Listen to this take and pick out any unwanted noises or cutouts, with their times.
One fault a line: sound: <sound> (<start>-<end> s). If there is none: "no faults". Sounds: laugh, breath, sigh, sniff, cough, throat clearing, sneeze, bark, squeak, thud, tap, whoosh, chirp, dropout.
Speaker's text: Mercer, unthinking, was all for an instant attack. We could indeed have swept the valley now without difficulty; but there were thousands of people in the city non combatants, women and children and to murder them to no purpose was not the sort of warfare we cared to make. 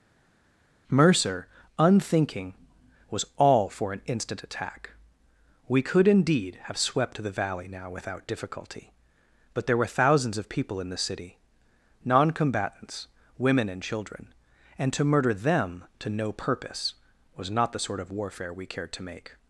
no faults